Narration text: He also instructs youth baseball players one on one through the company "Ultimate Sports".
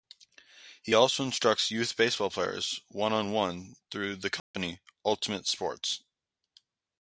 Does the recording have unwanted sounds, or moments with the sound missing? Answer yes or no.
yes